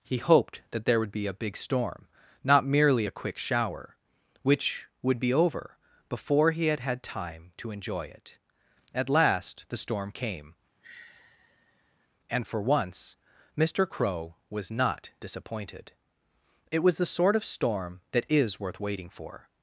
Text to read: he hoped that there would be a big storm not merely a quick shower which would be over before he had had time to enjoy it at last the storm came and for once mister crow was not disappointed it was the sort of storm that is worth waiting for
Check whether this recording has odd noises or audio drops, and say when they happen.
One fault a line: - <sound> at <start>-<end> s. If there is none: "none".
- sigh at 10.8-12.1 s